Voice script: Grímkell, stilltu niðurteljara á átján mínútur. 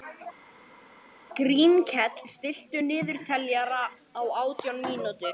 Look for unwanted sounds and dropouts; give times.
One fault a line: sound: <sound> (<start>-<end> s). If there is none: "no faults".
no faults